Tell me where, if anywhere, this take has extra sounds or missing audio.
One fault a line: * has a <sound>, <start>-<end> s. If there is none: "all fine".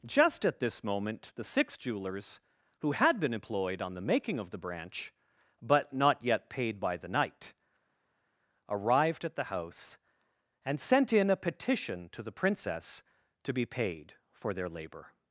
all fine